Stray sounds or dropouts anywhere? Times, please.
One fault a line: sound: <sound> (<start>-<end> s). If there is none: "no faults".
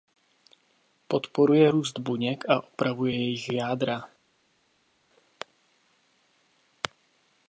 no faults